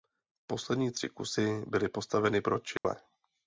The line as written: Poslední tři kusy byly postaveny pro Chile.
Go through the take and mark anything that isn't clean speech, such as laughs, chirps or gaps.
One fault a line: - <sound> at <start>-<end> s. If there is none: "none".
- dropout at 2.8-2.8 s